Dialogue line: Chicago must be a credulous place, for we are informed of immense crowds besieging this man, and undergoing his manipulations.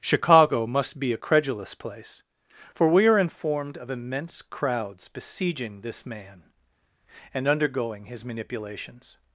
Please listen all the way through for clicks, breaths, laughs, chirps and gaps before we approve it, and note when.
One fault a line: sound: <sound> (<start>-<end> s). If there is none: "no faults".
no faults